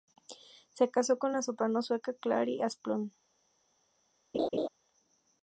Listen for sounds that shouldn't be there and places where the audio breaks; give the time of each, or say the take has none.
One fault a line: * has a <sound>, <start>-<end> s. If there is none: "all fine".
* has a laugh, 4.3-4.7 s